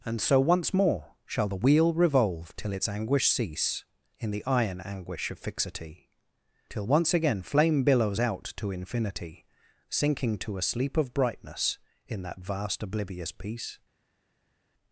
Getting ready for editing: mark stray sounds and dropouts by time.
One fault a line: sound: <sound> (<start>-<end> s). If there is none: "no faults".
no faults